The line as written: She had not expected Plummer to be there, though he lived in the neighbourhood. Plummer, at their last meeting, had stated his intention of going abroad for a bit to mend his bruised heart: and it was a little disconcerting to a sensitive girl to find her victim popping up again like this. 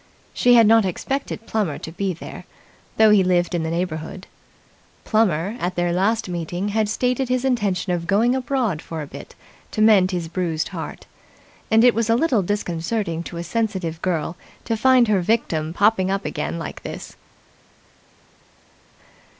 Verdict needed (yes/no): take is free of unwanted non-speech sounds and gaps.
yes